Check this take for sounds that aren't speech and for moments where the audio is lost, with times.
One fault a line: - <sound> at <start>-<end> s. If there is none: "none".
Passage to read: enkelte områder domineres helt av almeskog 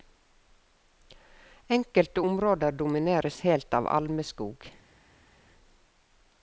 none